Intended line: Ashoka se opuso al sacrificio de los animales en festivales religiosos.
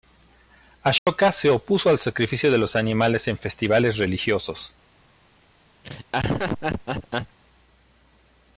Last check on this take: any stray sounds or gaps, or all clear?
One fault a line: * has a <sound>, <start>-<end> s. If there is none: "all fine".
* has a dropout, 1.0-1.1 s
* has a laugh, 5.8-7.4 s